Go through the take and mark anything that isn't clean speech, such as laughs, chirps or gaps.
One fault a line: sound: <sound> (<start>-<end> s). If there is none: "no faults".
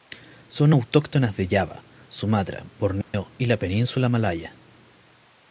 sound: dropout (3.0-3.1 s)